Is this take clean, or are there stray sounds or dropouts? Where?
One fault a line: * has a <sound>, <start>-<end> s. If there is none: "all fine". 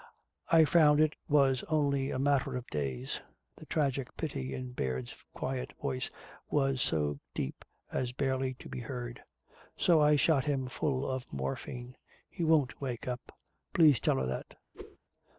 * has a whoosh, 14.7-15.0 s